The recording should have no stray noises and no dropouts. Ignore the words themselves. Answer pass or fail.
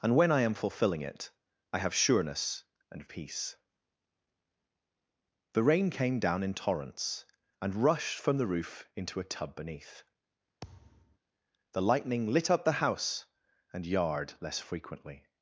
fail